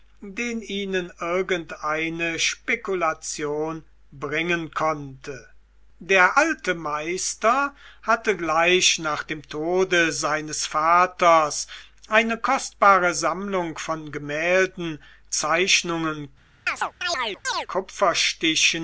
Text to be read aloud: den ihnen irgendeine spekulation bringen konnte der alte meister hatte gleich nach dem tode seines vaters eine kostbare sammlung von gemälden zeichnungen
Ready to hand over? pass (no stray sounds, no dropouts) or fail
fail